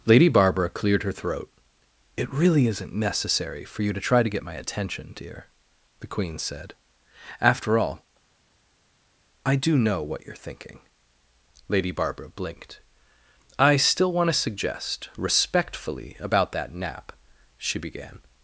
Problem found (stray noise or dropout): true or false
false